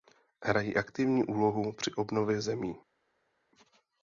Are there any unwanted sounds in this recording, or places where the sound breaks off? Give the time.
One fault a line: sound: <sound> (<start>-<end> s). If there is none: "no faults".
no faults